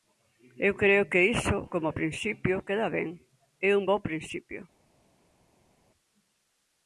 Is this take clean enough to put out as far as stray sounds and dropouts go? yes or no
yes